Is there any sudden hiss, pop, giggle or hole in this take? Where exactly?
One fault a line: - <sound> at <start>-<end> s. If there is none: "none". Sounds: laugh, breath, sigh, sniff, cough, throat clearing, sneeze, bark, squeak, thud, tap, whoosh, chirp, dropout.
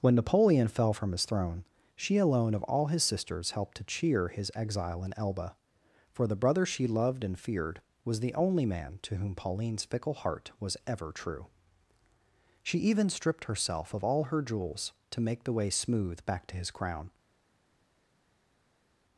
none